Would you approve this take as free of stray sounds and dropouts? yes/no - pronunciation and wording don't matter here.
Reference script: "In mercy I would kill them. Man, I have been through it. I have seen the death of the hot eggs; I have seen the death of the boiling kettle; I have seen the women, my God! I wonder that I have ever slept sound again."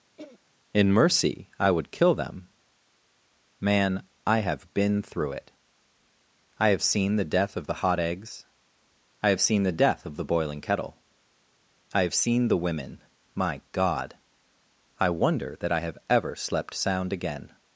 no